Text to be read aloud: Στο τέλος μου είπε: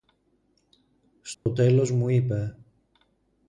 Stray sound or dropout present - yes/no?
yes